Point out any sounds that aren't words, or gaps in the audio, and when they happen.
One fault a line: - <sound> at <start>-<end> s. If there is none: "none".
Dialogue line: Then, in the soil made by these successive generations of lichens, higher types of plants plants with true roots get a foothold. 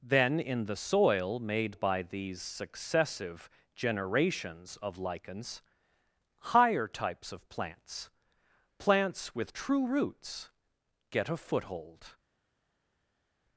none